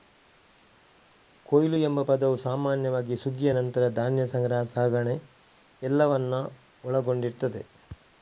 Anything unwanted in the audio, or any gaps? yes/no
no